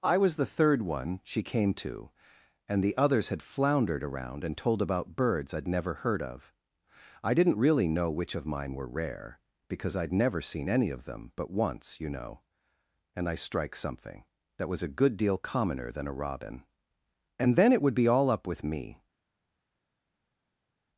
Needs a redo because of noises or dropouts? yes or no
no